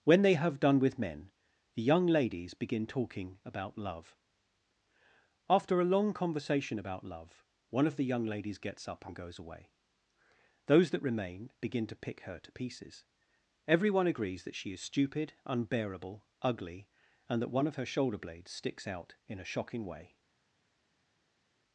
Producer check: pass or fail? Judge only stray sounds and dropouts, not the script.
pass